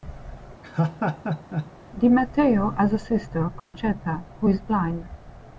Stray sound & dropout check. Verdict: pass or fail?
fail